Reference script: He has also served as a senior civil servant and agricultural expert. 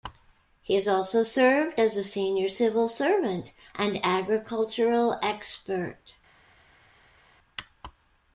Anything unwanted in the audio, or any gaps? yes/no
no